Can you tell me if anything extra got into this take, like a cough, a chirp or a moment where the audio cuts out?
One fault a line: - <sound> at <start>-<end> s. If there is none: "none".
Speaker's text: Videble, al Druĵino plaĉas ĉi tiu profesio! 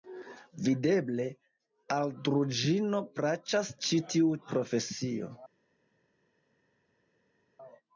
none